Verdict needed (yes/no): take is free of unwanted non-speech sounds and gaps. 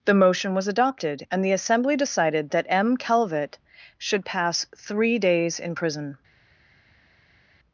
yes